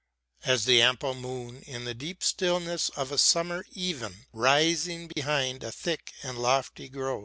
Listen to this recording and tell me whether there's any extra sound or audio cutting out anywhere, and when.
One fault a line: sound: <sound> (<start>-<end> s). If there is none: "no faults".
sound: dropout (5.1-5.2 s)